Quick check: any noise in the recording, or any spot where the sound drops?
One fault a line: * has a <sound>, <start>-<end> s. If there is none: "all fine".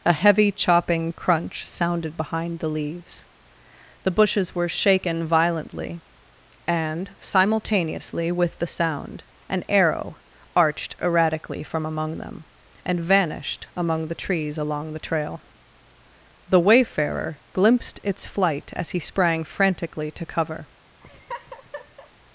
* has a laugh, 21.0-22.1 s